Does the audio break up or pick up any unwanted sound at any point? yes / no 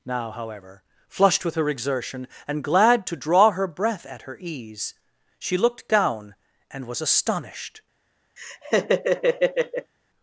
yes